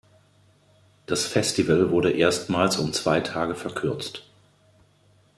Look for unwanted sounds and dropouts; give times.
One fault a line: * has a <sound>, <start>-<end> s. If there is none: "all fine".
all fine